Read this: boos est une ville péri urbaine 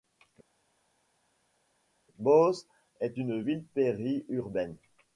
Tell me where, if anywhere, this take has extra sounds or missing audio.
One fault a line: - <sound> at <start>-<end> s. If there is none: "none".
none